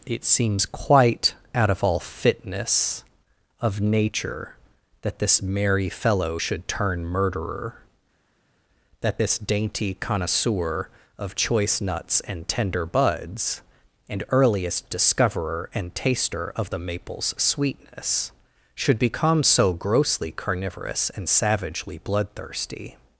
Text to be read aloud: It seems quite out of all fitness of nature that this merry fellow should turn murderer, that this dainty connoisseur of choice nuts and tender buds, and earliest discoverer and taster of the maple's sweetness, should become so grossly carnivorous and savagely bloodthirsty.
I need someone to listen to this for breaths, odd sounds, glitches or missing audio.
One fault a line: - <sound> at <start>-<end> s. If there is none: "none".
none